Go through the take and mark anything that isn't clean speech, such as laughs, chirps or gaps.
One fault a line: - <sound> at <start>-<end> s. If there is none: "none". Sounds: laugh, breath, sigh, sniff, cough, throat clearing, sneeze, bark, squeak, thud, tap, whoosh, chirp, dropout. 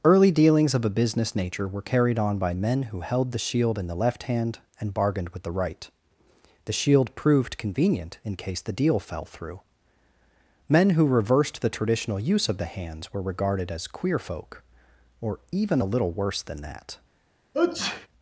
- sneeze at 17.5-18.1 s